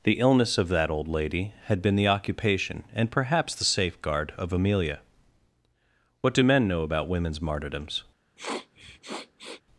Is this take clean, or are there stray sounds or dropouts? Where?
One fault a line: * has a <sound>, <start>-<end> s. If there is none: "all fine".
* has a sniff, 8.4-9.6 s